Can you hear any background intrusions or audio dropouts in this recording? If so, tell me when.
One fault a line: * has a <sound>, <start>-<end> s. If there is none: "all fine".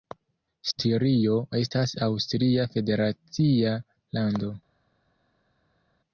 all fine